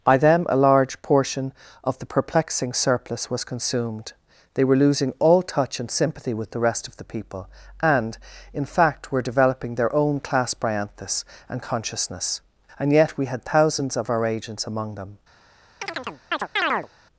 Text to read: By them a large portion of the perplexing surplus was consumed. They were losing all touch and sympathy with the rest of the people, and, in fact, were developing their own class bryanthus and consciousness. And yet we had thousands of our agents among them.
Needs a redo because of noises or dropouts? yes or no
yes